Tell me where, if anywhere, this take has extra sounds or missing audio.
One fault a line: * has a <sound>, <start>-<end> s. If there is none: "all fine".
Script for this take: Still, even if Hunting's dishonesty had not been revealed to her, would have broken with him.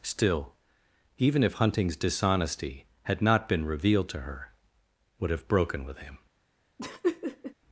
* has a laugh, 6.8-7.5 s